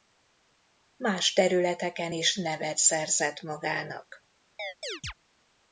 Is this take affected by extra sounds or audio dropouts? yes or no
yes